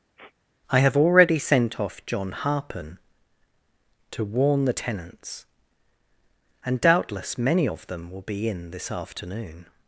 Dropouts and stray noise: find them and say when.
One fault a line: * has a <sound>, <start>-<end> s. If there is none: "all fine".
* has a sniff, 0.2-0.3 s